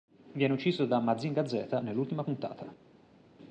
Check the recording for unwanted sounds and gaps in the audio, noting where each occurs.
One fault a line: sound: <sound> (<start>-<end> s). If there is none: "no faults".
no faults